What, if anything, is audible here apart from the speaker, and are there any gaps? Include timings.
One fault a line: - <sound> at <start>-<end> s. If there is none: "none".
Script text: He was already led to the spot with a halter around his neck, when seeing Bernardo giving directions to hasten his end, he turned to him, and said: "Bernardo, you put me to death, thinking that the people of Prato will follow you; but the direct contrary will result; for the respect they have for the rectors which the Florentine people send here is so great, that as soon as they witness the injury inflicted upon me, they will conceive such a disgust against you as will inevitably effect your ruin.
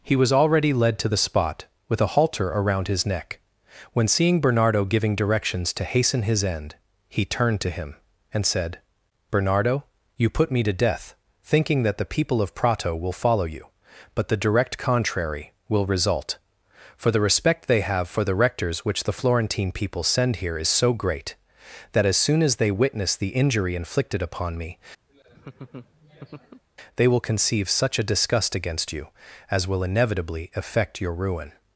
- laugh at 25.1-26.6 s